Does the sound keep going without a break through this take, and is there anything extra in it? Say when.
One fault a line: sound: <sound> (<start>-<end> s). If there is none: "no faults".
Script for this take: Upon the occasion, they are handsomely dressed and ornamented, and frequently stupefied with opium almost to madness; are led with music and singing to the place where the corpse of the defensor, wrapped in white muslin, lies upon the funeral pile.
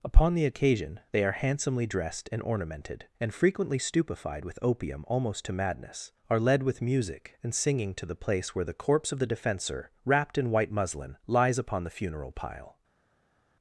no faults